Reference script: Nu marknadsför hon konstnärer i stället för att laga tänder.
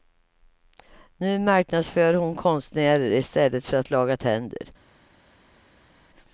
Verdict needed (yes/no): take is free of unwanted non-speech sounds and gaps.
yes